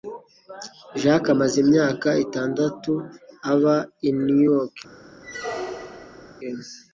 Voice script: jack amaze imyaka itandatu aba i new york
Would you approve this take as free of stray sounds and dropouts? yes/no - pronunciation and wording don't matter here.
no